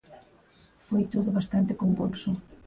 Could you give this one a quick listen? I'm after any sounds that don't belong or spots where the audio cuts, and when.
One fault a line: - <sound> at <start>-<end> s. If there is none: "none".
none